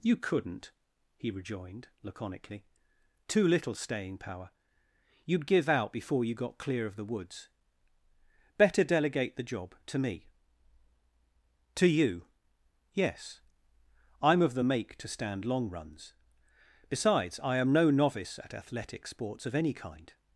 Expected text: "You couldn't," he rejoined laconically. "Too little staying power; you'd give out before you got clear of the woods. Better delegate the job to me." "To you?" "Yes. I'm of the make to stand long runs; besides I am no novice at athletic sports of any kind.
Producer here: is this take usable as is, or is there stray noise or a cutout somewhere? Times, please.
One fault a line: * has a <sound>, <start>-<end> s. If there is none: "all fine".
all fine